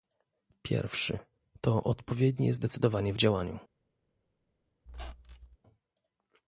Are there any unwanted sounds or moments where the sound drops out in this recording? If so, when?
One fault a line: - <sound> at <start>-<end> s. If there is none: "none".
- squeak at 4.9-5.6 s